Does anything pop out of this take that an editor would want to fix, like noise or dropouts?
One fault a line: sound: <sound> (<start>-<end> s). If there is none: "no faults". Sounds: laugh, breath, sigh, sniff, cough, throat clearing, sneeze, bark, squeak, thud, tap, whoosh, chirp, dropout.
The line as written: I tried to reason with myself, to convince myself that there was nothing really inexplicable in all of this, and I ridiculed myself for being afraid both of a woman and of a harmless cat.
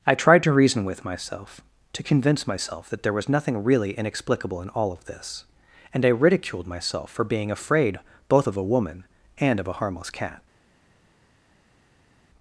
no faults